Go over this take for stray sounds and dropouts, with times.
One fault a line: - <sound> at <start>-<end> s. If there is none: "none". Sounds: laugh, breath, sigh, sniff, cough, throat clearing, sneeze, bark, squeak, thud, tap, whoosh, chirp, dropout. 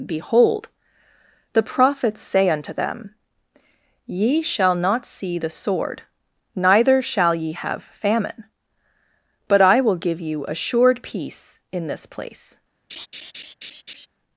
- laugh at 12.9-14.1 s